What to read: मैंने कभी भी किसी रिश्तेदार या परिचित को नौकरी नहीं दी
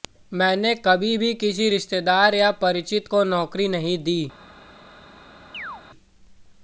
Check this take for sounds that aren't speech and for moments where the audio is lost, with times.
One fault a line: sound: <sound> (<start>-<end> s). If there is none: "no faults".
sound: chirp (5.5-5.8 s)